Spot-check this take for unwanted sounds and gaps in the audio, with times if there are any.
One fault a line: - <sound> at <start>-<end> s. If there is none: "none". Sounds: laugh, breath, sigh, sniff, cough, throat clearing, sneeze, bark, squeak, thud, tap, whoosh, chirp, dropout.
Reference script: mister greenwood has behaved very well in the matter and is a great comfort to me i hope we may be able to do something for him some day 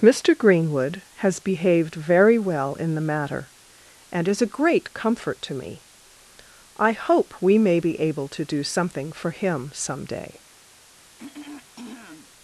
- throat clearing at 11.2-12.3 s